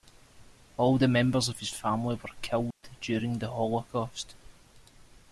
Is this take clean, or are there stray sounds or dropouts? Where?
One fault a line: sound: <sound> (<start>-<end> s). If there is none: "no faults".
sound: dropout (2.7-2.8 s)